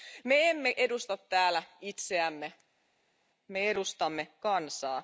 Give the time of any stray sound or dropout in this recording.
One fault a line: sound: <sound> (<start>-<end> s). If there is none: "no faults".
no faults